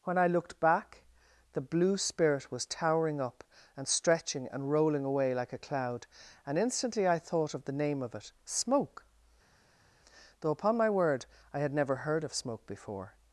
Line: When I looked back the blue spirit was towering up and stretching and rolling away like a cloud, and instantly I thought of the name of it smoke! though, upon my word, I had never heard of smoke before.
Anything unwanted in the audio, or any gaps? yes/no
no